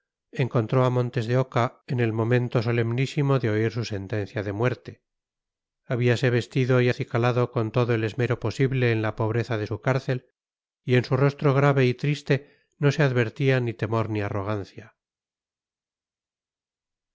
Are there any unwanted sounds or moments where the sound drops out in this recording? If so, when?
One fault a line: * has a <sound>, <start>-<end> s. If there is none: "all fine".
all fine